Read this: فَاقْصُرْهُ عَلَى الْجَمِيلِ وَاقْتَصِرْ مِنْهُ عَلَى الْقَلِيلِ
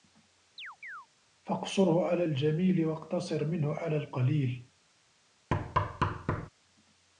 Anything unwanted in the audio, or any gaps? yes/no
yes